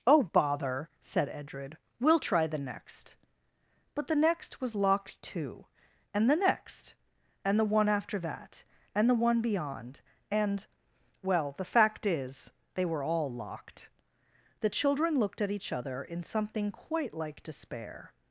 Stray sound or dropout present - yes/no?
no